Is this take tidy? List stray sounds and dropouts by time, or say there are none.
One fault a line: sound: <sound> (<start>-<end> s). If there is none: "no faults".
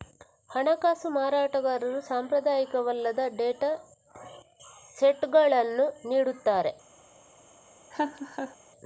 sound: laugh (7.9-8.6 s)